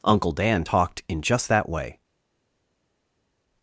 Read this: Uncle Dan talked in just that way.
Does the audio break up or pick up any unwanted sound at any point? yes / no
no